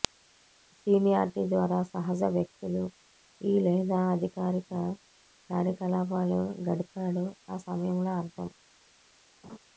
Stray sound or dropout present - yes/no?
yes